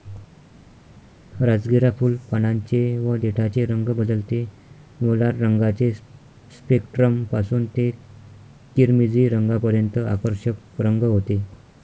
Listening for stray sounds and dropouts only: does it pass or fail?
pass